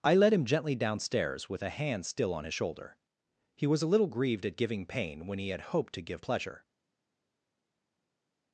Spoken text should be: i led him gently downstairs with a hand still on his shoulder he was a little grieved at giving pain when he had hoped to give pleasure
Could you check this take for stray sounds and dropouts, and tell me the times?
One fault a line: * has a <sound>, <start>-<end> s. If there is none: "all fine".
all fine